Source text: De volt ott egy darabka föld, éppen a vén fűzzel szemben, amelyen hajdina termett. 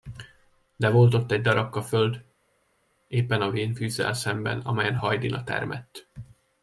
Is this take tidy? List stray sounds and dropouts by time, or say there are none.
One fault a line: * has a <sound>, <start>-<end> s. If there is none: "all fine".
all fine